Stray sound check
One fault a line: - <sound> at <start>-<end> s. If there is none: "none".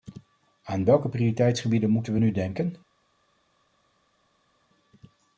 none